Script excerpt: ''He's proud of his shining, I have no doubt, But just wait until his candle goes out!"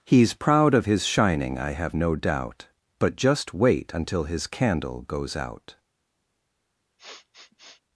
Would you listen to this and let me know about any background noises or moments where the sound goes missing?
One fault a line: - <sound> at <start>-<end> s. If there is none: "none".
- sniff at 7.0-7.8 s